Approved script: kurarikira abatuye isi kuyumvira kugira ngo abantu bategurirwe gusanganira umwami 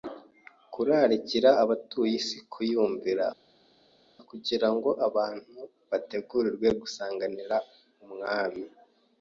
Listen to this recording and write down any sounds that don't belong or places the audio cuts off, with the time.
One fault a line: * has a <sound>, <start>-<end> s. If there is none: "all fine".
all fine